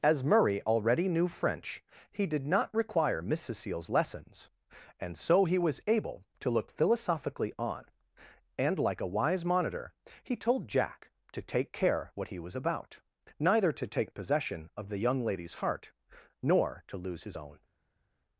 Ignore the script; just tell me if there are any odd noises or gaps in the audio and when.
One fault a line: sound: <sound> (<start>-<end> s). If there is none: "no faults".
no faults